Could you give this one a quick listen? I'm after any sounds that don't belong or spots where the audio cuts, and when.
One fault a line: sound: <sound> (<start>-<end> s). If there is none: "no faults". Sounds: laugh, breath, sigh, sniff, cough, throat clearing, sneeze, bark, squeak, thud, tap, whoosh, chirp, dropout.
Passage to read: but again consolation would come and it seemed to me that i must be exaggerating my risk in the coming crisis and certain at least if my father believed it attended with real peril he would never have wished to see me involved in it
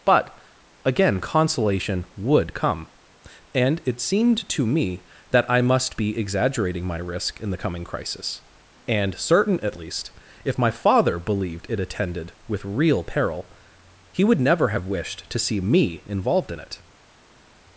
no faults